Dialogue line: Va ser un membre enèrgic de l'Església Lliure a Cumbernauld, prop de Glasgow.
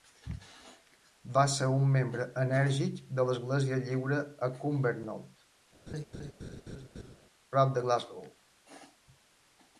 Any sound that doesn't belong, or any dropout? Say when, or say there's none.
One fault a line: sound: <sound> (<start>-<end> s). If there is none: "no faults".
sound: laugh (5.9-7.2 s)